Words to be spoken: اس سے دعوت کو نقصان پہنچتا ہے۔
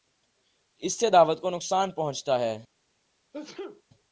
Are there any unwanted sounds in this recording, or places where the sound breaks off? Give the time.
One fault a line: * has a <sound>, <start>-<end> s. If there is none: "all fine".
* has a sneeze, 3.3-3.8 s